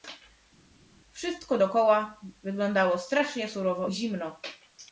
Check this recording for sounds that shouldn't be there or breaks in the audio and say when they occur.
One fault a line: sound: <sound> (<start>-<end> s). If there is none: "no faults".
no faults